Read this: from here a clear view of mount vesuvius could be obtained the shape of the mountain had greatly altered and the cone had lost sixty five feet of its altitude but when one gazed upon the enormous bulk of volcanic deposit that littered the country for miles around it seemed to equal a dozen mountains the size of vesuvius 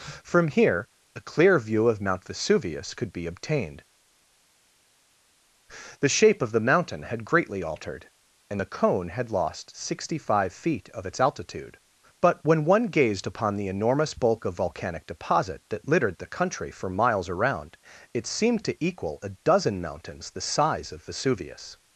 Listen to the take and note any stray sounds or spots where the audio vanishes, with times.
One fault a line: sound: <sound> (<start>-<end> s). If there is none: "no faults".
no faults